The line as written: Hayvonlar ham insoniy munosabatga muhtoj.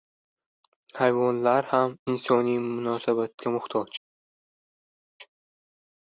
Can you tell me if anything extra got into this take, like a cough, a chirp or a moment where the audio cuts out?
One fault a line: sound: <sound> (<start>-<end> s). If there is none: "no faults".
no faults